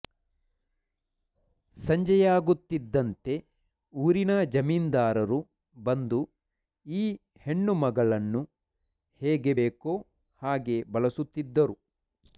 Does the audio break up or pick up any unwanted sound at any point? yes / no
no